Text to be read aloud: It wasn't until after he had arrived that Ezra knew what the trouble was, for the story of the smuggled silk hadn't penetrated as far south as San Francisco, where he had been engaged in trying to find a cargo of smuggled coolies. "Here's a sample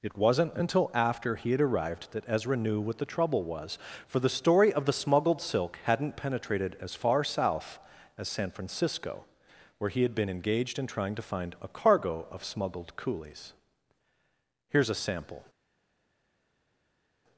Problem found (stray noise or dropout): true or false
false